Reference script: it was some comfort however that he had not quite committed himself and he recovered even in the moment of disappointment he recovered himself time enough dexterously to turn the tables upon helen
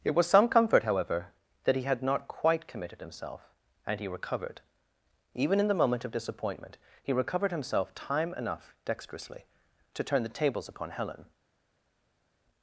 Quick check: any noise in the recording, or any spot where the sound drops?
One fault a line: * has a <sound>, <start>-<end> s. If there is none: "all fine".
all fine